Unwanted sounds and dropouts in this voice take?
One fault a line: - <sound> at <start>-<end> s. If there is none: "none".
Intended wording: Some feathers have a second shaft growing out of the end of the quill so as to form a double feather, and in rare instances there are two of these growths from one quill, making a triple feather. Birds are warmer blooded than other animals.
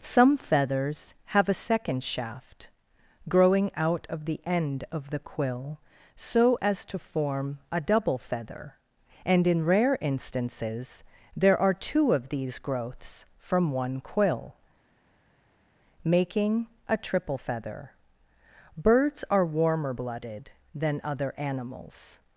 none